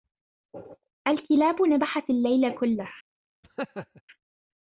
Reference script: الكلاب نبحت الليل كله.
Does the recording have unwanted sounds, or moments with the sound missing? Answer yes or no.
yes